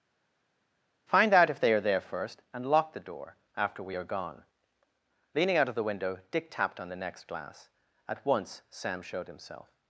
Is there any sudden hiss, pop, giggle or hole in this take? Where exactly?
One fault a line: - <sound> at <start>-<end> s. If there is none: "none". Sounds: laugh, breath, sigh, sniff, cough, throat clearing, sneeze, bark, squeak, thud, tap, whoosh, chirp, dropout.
none